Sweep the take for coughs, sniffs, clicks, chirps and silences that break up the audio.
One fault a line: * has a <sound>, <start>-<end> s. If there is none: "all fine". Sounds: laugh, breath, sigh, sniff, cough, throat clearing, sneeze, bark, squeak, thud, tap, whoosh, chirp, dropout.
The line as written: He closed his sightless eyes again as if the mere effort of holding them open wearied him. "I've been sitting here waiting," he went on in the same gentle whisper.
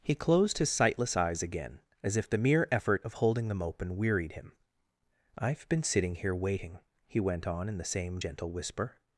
all fine